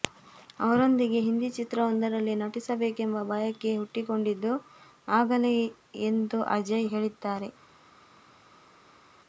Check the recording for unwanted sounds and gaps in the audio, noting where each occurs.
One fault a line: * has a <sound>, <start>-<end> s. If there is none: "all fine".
all fine